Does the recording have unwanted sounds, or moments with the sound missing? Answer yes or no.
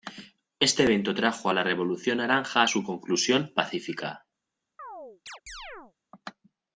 yes